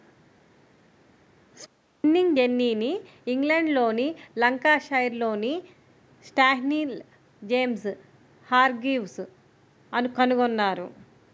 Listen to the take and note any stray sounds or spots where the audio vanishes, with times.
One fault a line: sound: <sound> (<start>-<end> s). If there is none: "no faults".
no faults